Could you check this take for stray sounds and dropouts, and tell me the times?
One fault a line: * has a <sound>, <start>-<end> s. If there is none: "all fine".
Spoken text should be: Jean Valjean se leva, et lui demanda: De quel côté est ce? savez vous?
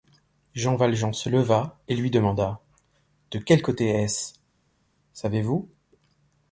all fine